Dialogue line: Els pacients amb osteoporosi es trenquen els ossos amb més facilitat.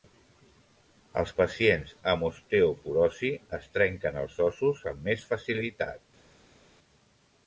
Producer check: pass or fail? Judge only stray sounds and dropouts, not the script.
pass